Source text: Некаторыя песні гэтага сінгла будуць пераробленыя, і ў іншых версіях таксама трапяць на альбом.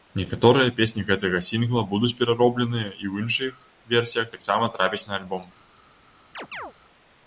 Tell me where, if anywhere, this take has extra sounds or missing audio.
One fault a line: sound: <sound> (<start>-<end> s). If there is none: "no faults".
sound: chirp (6.3-6.7 s)